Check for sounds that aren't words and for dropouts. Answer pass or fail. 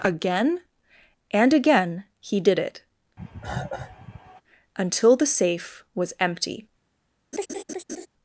fail